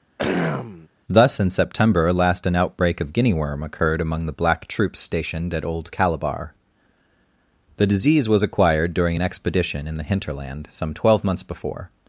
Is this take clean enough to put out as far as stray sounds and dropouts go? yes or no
no